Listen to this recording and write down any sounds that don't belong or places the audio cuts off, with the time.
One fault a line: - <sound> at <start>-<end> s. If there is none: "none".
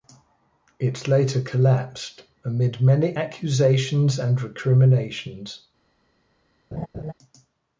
- laugh at 6.7-7.1 s